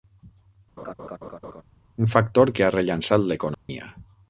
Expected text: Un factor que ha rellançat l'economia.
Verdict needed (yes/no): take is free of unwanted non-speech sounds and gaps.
no